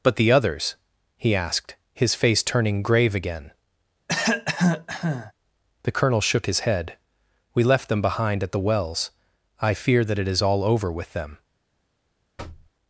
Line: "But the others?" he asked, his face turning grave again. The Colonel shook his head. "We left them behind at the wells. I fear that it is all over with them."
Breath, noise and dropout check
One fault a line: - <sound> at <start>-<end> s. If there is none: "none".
- cough at 4.1-5.3 s
- thud at 12.4-12.7 s